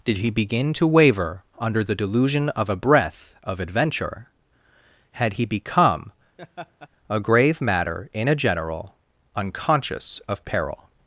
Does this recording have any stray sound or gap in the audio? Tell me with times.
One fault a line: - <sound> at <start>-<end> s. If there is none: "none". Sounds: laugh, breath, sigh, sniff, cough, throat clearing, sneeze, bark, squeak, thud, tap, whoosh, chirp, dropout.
- laugh at 6.4-6.9 s